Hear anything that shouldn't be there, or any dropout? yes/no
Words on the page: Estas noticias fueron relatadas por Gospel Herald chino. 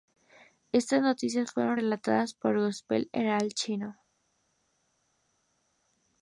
no